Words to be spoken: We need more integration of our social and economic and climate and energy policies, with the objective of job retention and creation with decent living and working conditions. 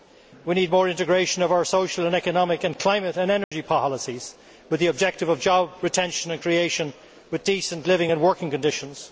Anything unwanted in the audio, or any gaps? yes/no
yes